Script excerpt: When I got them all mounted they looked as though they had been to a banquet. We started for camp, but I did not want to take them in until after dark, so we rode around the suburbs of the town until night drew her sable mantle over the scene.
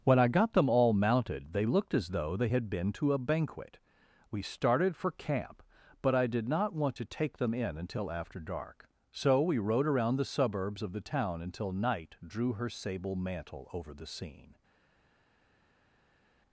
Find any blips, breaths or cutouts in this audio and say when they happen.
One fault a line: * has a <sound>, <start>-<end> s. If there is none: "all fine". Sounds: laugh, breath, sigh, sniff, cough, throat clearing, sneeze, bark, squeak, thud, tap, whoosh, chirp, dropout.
all fine